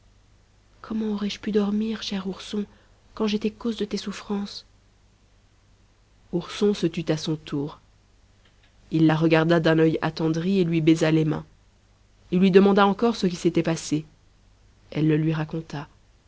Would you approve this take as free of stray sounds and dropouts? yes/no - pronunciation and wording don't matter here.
yes